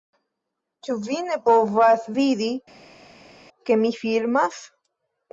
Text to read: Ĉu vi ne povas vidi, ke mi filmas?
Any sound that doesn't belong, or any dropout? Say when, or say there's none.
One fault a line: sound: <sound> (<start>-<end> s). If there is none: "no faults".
no faults